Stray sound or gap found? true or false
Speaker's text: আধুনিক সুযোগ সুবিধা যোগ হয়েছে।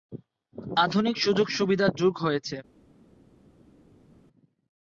false